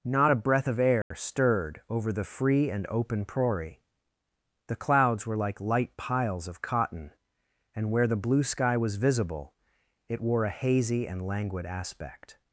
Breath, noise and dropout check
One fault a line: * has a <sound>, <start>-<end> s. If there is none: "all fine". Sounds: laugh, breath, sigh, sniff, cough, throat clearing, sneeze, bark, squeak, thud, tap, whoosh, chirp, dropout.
* has a dropout, 1.0-1.1 s